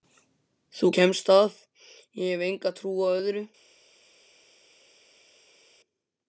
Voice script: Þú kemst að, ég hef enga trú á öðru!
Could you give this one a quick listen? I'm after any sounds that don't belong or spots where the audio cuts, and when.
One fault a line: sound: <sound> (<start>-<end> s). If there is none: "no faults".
no faults